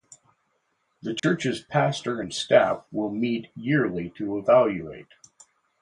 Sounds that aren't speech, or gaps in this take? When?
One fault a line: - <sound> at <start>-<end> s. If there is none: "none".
- dropout at 1.2-1.2 s